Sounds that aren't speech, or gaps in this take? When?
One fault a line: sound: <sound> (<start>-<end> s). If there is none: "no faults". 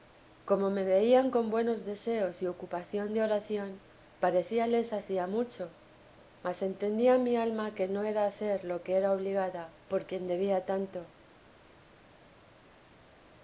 no faults